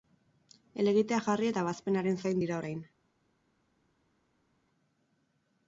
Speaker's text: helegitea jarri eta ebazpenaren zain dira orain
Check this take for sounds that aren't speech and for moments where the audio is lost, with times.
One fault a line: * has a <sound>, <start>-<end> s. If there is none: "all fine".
all fine